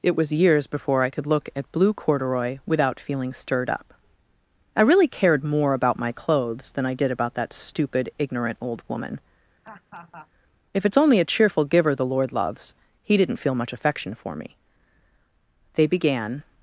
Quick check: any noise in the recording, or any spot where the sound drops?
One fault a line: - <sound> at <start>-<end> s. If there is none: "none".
- laugh at 9.6-10.3 s